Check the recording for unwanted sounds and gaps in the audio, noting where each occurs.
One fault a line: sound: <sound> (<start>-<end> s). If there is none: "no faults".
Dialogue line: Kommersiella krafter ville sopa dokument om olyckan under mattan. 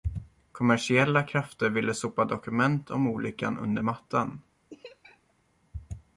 sound: laugh (4.7-5.3 s)